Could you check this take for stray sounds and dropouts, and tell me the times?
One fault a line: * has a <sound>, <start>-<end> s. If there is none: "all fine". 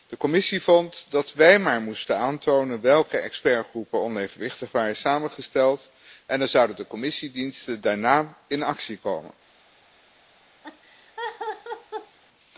* has a laugh, 10.6-12.2 s